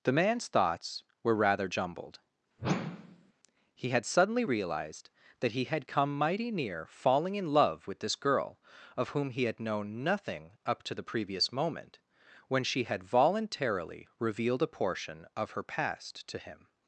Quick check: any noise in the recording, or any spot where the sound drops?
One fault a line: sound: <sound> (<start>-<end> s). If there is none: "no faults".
sound: whoosh (2.6-3.3 s)